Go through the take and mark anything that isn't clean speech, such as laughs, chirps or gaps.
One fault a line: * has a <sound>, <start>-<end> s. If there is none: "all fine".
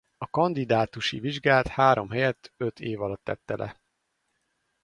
all fine